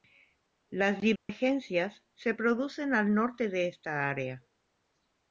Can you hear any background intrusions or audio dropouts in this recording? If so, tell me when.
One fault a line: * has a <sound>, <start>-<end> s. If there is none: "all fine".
* has a dropout, 1.2-1.3 s